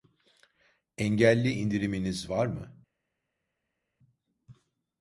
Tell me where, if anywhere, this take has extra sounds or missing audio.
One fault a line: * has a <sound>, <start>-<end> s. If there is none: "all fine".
all fine